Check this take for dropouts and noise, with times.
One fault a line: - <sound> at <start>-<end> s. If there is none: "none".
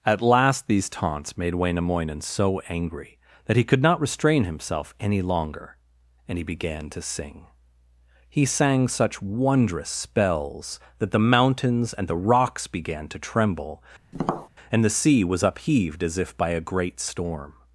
- tap at 14.1-14.5 s